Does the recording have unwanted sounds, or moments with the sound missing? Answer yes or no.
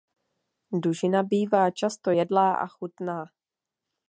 no